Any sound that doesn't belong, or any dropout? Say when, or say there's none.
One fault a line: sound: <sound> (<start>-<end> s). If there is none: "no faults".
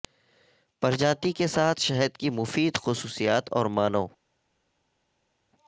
no faults